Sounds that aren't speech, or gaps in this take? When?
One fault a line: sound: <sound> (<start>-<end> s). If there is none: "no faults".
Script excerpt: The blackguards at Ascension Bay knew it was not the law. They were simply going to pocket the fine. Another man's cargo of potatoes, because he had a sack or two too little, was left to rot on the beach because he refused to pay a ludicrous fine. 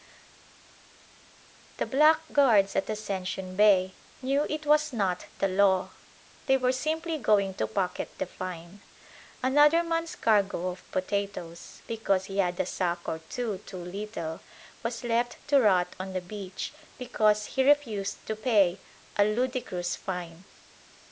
no faults